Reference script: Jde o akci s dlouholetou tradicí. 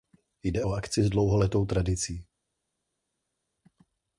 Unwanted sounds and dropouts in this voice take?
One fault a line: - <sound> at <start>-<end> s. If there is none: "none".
none